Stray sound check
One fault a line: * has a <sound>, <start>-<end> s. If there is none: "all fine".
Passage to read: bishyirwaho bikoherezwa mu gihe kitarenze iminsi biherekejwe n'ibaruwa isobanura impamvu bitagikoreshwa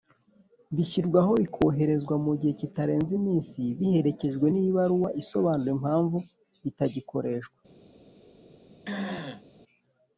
* has a throat clearing, 8.9-9.4 s